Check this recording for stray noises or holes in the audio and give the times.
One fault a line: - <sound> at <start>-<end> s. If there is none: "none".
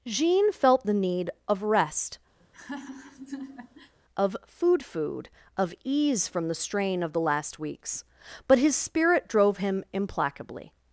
- laugh at 2.4-3.9 s